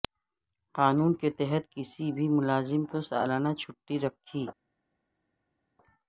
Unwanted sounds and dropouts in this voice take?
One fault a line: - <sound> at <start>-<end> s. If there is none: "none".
none